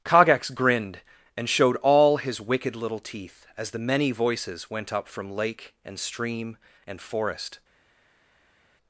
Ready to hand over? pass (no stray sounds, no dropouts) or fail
pass